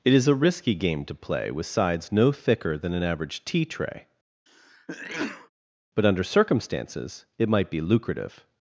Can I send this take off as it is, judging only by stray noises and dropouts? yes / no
no